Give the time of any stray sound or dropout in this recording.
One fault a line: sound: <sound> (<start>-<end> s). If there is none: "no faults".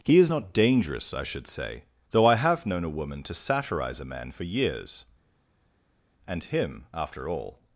no faults